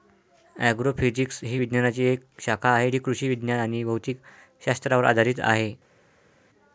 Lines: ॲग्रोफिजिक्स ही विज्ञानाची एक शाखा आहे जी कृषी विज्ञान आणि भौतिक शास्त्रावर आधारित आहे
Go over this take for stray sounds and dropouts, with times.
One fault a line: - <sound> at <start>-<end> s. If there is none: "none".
none